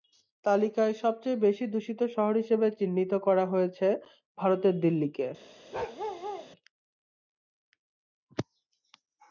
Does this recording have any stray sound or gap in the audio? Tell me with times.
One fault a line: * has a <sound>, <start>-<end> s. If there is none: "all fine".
* has a bark, 5.7-6.5 s